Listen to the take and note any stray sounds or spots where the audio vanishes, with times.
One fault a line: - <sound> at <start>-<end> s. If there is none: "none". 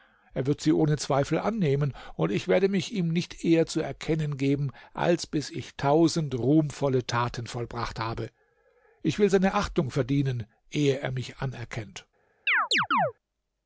- chirp at 12.5-13.1 s